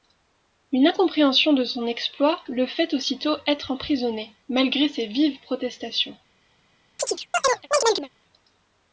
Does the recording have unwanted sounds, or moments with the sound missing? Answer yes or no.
yes